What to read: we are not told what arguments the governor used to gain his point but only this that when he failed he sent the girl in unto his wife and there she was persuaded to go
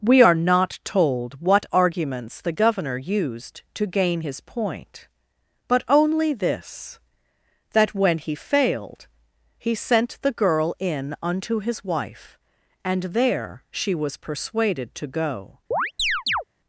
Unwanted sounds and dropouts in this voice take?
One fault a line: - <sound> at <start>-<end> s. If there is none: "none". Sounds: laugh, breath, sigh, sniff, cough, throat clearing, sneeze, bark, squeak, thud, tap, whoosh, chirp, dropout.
- chirp at 15.7-16.4 s